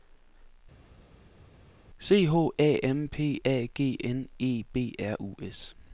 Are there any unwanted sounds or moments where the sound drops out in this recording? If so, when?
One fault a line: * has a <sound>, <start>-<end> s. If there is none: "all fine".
all fine